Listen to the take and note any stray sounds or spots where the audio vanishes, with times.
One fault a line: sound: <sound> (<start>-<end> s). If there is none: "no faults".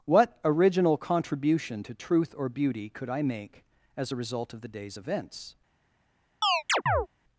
sound: chirp (6.4-7.1 s)